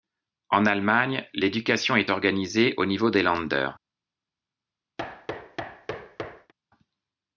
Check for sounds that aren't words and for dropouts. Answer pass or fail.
fail